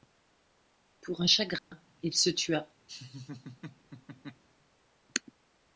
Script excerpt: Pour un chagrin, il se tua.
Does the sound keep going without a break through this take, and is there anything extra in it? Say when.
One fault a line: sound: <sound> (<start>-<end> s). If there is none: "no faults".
sound: dropout (1.6-1.7 s)
sound: laugh (2.9-4.4 s)